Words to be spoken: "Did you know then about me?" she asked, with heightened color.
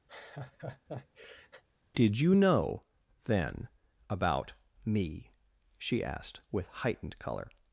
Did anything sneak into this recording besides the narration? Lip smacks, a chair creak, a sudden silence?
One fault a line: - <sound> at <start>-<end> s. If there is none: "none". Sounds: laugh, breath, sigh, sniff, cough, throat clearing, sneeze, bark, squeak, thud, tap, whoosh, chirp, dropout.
- laugh at 0.1-1.6 s